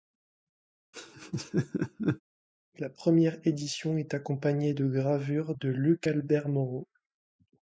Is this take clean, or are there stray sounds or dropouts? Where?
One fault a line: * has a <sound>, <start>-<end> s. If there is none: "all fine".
* has a laugh, 0.9-2.2 s